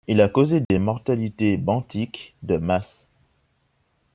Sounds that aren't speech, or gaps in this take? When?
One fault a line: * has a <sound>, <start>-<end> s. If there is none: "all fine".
* has a dropout, 0.6-0.7 s